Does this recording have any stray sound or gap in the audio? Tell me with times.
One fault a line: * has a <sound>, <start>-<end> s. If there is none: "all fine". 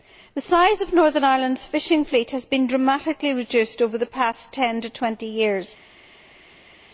all fine